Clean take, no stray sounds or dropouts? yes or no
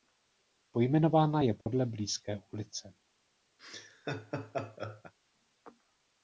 no